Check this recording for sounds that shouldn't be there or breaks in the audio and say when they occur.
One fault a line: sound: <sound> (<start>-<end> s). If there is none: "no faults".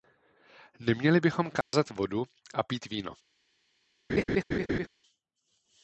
sound: dropout (1.6-1.7 s)
sound: laugh (4.1-4.9 s)